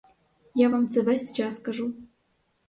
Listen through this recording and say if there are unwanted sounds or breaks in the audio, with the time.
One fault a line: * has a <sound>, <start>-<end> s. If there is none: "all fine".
all fine